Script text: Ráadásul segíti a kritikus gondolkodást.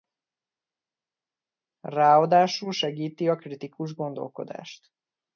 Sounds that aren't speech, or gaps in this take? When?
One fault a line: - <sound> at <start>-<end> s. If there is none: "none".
none